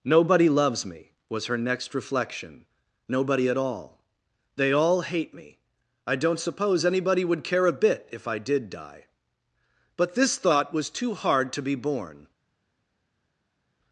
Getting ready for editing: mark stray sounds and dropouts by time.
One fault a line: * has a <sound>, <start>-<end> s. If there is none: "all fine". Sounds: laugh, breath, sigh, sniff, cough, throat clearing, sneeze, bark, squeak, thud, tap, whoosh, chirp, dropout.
all fine